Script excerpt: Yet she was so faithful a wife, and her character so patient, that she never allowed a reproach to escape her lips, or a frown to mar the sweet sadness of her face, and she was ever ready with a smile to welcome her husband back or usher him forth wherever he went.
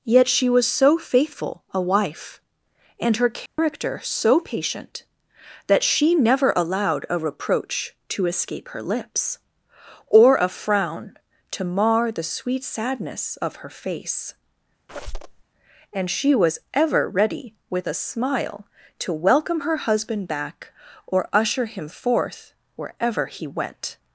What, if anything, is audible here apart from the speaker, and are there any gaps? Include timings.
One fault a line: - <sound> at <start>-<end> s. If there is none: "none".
- dropout at 3.5-3.6 s
- squeak at 14.9-15.4 s